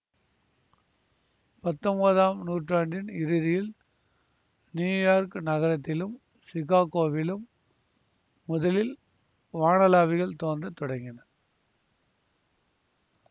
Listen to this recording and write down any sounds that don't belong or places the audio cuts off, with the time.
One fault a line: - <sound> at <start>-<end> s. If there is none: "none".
none